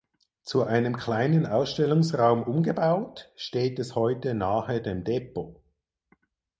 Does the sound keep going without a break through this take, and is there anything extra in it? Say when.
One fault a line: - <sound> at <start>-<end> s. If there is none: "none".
none